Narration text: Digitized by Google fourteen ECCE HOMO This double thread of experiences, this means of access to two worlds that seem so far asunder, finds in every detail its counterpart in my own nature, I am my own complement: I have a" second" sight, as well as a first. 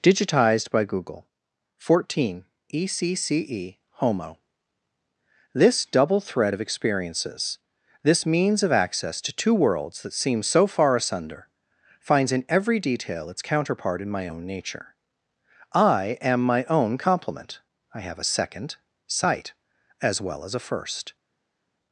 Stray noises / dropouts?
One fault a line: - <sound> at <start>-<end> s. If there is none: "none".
none